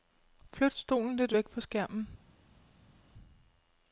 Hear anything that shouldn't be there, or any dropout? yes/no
no